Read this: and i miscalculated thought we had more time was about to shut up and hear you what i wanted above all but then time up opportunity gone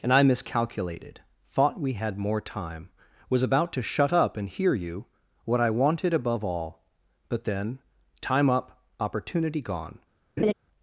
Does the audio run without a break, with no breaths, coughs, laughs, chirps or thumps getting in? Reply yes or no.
no